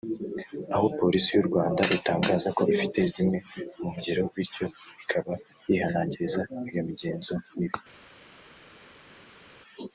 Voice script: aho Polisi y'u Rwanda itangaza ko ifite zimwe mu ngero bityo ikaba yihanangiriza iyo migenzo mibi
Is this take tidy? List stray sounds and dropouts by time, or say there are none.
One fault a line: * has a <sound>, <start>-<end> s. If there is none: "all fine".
all fine